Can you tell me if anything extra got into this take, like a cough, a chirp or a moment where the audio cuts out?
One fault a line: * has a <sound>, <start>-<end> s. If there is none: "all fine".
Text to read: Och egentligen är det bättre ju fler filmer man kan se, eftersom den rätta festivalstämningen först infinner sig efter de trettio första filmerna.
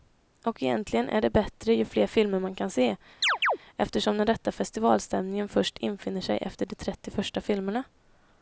* has a chirp, 3.2-3.6 s